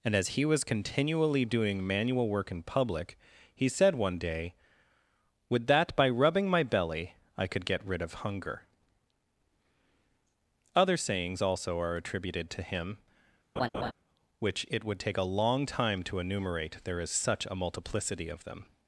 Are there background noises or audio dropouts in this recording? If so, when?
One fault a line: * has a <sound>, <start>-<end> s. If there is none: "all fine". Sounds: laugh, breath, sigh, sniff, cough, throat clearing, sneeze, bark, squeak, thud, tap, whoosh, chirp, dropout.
* has a laugh, 13.6-13.9 s